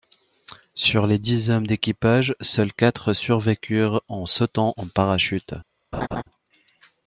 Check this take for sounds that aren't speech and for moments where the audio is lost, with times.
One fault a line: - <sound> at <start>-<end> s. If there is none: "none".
- laugh at 5.9-6.2 s